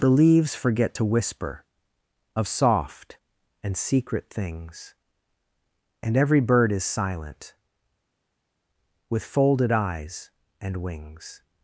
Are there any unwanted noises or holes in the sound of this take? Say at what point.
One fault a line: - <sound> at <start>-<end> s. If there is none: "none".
none